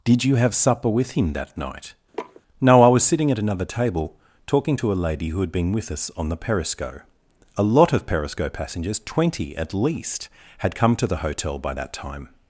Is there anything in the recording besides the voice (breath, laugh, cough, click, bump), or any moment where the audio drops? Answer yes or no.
yes